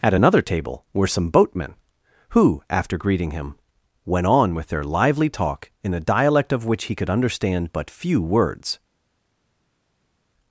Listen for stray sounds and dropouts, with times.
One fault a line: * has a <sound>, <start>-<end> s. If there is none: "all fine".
all fine